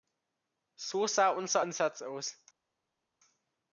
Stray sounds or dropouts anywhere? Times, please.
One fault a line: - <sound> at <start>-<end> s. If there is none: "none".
none